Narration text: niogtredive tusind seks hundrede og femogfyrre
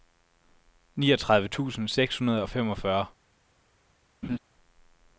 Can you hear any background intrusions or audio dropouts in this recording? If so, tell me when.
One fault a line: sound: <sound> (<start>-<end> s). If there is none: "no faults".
sound: laugh (4.2-4.4 s)